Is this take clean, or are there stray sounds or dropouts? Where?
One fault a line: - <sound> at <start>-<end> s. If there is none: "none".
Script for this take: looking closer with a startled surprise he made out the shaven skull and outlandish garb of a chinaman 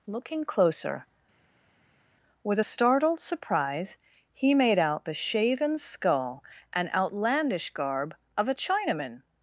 none